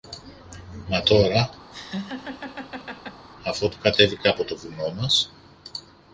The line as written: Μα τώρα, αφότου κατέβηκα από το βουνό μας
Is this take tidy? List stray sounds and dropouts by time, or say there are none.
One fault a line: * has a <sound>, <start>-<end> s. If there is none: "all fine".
* has a laugh, 1.7-3.3 s